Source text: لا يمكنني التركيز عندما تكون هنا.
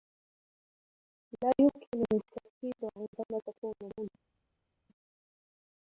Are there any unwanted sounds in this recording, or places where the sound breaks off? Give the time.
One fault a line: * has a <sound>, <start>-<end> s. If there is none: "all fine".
all fine